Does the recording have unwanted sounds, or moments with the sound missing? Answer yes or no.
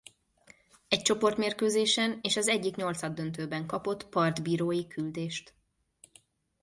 no